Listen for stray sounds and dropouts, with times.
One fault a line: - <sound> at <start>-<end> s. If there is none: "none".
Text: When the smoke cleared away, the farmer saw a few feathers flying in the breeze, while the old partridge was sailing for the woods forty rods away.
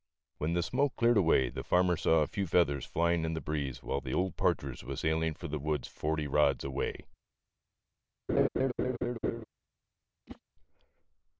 - laugh at 8.3-9.5 s
- whoosh at 10.3-10.4 s